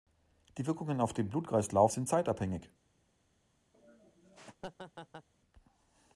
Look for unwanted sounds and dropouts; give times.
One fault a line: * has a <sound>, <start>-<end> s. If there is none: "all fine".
* has a laugh, 3.7-5.3 s